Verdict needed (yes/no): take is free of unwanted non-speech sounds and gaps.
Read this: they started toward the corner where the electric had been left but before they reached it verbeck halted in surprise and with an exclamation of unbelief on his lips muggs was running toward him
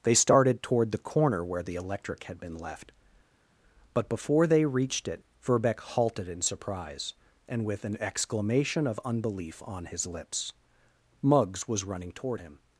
yes